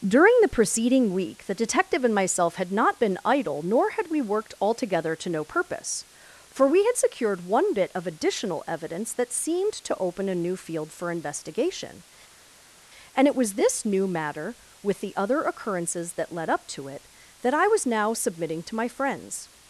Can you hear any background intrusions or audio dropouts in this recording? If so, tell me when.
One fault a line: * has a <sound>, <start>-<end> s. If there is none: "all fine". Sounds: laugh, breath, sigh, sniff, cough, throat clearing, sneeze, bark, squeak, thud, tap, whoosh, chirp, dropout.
all fine